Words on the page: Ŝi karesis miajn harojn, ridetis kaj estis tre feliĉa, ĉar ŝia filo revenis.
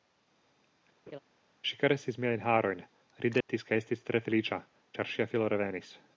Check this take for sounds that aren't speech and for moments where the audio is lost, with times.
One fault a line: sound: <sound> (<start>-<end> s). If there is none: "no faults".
sound: laugh (1.1-1.2 s)
sound: dropout (3.4-3.5 s)